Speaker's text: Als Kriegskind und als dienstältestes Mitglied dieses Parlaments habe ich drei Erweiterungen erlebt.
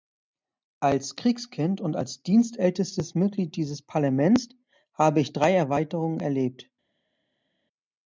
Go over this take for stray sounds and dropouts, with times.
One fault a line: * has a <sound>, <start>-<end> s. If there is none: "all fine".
all fine